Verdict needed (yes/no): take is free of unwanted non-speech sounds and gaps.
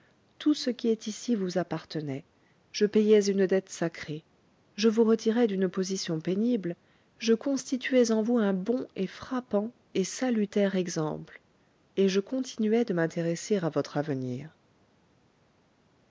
yes